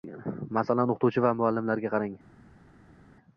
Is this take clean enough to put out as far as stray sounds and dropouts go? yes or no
yes